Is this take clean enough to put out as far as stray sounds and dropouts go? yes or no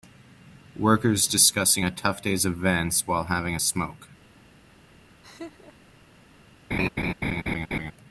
no